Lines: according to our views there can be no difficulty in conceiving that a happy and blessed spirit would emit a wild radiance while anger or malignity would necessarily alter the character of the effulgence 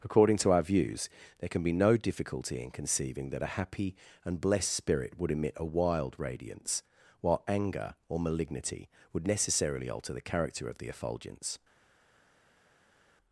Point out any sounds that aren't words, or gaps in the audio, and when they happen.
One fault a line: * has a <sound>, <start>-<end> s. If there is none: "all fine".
all fine